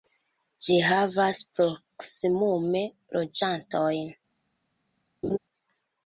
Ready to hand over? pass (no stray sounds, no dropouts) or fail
fail